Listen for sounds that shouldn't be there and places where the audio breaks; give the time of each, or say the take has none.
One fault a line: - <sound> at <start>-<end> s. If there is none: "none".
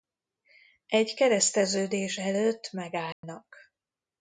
- dropout at 3.1-3.2 s